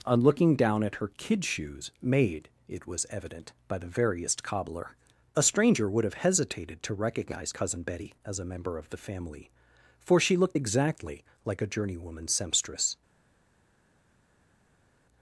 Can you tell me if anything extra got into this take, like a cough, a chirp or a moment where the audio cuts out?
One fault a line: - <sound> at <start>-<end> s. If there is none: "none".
none